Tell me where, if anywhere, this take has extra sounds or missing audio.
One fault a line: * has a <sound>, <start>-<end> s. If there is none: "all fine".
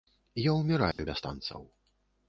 * has a dropout, 0.9-1.0 s